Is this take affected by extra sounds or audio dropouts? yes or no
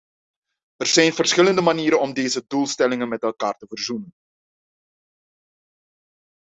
no